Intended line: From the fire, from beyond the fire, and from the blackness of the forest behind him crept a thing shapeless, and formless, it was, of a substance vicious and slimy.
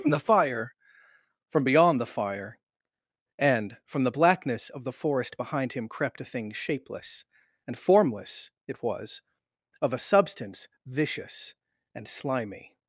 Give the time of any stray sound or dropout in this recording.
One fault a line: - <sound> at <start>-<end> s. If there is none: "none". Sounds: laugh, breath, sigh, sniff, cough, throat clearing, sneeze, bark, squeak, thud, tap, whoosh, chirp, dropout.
none